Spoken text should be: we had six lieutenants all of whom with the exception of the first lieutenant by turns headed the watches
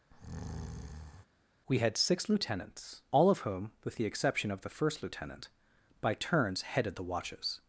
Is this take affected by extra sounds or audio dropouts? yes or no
yes